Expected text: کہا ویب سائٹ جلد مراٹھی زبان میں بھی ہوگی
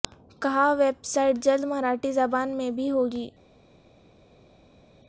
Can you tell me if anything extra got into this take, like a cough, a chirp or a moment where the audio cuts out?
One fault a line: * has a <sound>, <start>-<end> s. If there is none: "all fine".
all fine